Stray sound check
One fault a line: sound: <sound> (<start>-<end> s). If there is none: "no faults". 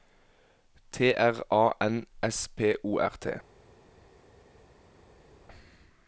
no faults